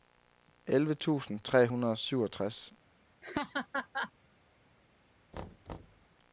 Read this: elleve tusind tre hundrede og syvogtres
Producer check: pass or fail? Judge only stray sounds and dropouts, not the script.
fail